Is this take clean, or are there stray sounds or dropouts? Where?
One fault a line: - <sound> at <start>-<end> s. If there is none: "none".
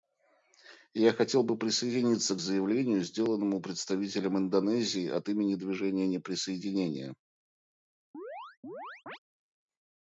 - chirp at 8.1-9.2 s